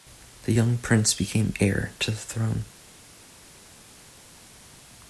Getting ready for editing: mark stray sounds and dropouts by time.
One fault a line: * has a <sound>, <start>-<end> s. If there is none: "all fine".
all fine